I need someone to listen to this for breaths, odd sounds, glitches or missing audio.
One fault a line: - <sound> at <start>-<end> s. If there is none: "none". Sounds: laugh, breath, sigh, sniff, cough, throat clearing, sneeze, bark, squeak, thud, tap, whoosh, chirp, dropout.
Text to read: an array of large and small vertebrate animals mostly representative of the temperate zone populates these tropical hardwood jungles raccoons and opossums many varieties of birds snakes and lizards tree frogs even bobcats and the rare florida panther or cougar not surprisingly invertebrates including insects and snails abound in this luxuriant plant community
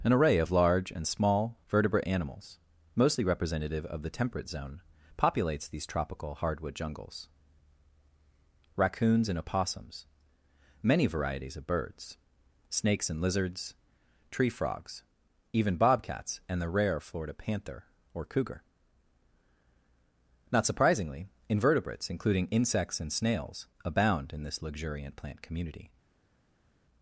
none